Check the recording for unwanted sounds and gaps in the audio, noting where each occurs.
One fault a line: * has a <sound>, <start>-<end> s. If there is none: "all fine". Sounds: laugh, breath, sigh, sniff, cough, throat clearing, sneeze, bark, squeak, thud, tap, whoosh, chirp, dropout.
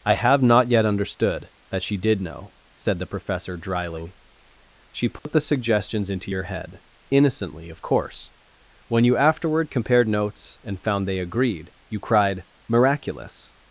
* has a dropout, 5.2-5.3 s